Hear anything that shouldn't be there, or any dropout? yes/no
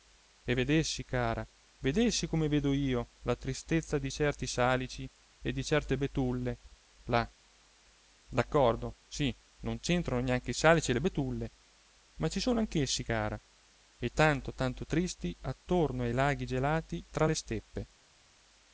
no